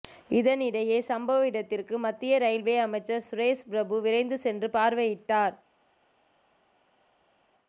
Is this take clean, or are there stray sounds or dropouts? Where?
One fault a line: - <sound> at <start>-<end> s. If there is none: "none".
none